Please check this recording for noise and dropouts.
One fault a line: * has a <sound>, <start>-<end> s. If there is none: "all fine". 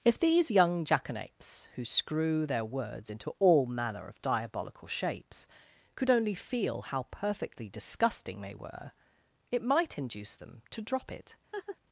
* has a laugh, 11.5-11.8 s